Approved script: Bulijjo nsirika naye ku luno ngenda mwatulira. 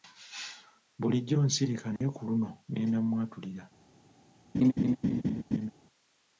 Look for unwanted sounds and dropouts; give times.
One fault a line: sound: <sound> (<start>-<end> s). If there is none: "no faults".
sound: dropout (2.0-2.0 s)
sound: laugh (4.5-5.7 s)